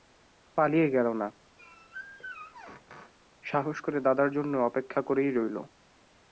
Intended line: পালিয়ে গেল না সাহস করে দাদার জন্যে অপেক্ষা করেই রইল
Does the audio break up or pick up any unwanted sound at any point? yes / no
yes